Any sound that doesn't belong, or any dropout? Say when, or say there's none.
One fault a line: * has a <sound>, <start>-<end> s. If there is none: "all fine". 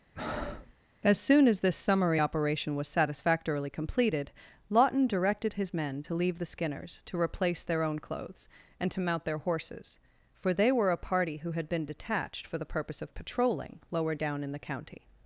* has a breath, 0.2-0.7 s